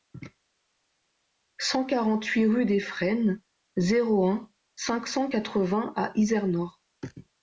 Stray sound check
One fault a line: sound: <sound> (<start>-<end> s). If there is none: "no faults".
no faults